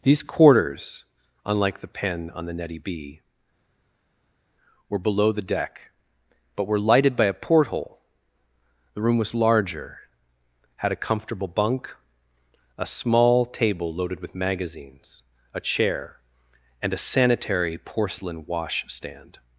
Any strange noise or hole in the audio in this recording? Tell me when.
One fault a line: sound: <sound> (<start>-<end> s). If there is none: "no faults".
no faults